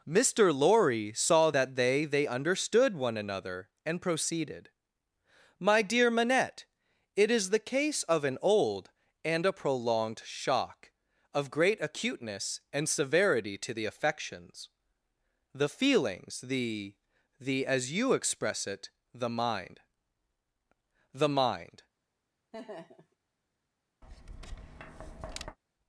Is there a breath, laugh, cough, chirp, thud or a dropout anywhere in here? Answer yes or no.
yes